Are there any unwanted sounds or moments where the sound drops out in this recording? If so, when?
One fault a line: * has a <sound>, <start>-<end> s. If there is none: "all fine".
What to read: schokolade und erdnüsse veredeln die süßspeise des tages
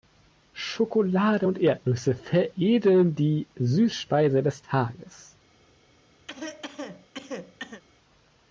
* has a cough, 6.3-7.8 s